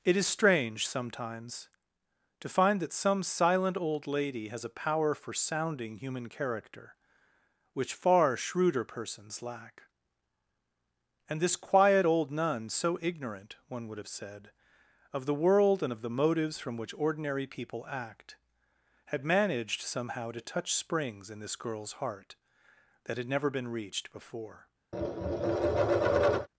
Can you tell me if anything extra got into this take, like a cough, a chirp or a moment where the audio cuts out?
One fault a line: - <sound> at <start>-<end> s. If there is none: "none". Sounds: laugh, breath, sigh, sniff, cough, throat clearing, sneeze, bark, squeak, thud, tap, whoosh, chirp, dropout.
- tap at 24.9-26.5 s